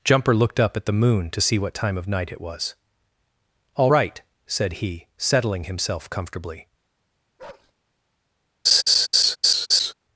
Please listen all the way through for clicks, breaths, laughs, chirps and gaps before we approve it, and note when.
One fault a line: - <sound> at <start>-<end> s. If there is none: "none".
- bark at 7.4-7.7 s
- laugh at 8.7-9.9 s